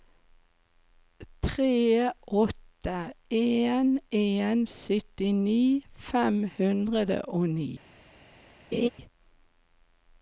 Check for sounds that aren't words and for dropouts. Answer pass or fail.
fail